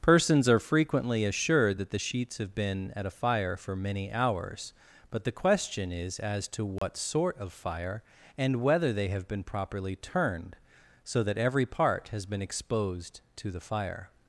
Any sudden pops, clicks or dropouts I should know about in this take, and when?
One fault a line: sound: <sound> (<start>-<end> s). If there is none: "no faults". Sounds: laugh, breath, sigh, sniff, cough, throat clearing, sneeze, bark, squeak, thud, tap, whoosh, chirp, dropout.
sound: dropout (6.8-6.8 s)